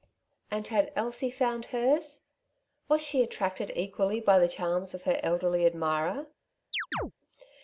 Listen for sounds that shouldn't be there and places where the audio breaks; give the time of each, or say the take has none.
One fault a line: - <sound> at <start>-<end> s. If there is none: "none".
- chirp at 6.7-7.1 s